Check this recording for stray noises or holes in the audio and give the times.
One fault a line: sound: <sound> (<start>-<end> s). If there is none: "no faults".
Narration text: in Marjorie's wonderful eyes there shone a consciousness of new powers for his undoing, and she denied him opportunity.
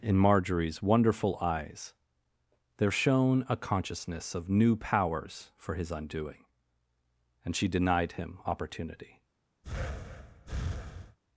sound: breath (9.6-11.2 s)